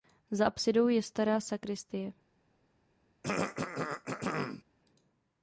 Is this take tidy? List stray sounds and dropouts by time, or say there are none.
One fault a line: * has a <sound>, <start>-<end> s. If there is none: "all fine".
* has a throat clearing, 3.2-4.6 s